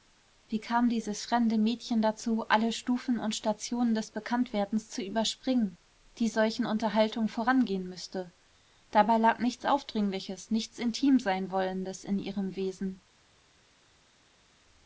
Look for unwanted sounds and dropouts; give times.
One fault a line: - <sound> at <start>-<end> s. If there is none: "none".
none